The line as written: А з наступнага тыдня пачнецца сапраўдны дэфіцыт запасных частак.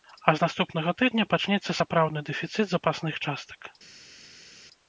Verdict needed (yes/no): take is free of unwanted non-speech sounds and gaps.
yes